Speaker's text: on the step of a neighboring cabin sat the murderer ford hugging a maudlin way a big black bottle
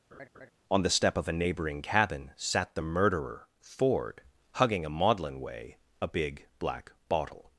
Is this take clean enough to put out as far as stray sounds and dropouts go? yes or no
no